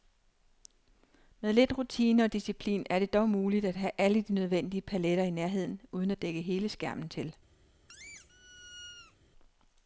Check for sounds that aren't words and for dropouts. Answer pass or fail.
fail